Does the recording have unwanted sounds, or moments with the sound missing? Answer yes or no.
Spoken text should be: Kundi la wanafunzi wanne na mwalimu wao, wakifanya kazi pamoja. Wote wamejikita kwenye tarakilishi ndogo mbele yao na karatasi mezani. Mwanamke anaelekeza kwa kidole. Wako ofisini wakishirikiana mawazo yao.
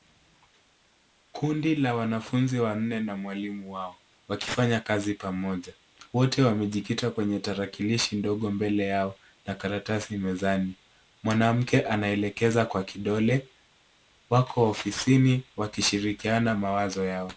no